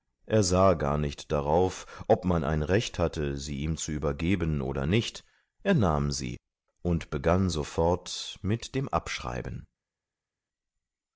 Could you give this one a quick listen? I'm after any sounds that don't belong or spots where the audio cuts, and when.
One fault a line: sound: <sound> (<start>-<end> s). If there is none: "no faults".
no faults